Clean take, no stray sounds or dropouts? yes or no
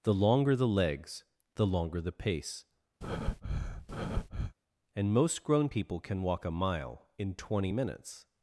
no